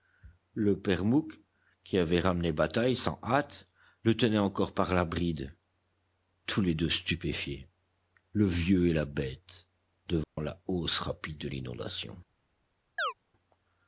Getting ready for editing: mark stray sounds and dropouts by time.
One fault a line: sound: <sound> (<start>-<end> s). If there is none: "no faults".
sound: dropout (10.2-10.4 s)
sound: chirp (13.0-13.1 s)